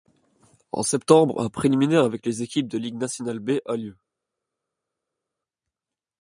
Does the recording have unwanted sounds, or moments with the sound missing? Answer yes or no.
no